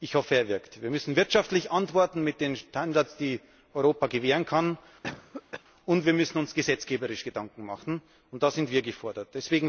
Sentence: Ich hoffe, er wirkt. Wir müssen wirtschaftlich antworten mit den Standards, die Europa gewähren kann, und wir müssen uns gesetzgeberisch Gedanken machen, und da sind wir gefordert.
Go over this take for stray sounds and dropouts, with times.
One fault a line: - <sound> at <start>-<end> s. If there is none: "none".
- cough at 5.0-5.6 s